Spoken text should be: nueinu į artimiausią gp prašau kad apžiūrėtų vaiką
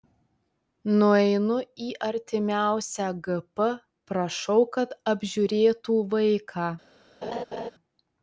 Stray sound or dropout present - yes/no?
yes